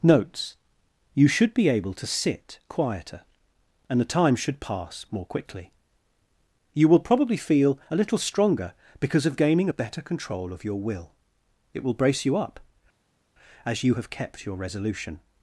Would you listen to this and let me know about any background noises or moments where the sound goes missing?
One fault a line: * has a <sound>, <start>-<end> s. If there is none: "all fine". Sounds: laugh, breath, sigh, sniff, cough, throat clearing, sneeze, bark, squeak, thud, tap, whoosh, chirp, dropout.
all fine